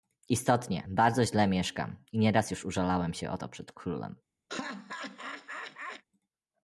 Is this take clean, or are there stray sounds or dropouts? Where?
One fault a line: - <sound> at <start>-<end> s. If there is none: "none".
- laugh at 4.5-6.0 s